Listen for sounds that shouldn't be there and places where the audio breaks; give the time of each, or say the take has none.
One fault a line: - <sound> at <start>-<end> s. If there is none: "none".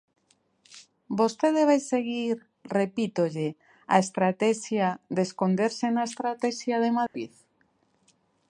- dropout at 7.1-7.1 s